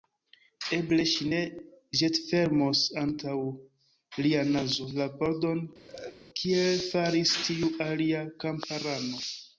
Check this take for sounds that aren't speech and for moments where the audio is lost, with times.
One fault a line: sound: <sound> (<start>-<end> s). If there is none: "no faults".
sound: laugh (5.9-6.2 s)